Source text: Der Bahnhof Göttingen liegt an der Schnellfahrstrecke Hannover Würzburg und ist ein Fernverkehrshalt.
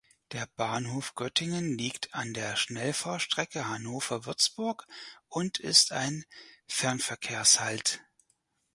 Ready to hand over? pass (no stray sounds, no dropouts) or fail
pass